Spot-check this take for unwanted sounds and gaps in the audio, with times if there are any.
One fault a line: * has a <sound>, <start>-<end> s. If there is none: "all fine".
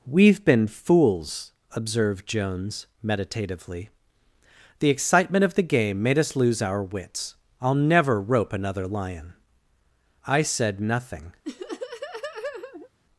* has a laugh, 11.4-12.9 s